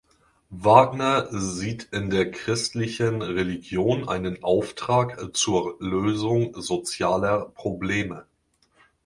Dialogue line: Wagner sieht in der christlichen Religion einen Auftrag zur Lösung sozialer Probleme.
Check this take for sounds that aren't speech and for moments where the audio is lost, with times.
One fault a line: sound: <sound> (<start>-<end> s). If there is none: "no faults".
no faults